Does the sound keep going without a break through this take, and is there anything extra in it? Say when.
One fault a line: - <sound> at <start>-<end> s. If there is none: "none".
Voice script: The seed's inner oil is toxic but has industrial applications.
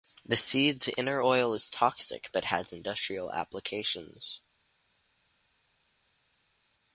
none